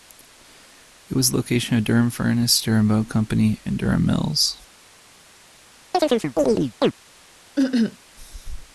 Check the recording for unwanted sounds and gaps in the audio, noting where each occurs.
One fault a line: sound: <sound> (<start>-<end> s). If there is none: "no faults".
sound: chirp (5.9-6.9 s)
sound: cough (7.6-8.0 s)